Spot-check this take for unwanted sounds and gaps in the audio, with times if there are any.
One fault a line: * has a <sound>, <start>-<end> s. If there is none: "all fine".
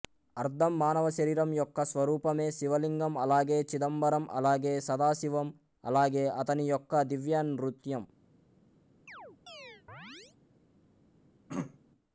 * has a chirp, 9.1-10.4 s
* has a throat clearing, 11.5-11.8 s